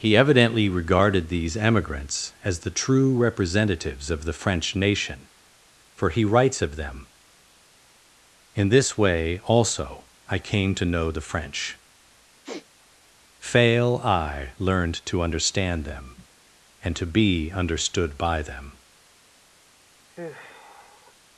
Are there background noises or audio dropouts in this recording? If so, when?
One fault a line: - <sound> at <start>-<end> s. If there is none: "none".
- sniff at 12.4-12.7 s
- sigh at 20.1-21.1 s